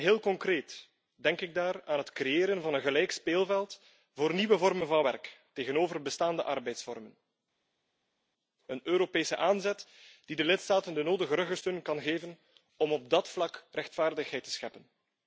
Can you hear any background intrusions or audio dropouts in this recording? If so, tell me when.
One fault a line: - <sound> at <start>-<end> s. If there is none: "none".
none